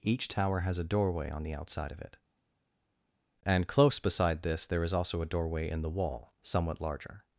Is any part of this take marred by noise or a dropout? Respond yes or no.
no